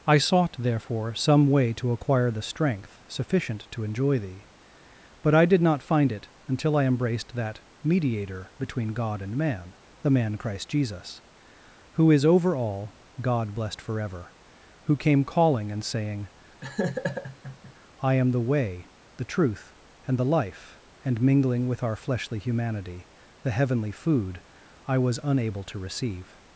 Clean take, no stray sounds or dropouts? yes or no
no